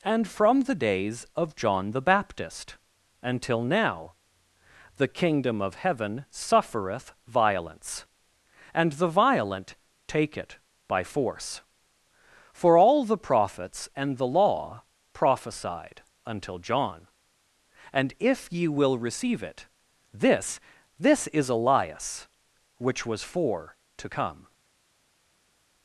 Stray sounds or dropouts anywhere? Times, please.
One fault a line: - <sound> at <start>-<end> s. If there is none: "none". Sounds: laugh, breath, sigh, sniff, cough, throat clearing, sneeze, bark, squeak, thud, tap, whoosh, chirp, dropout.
none